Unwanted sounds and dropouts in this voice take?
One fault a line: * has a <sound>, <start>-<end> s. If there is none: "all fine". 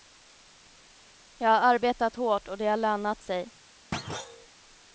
* has a thud, 3.9-4.5 s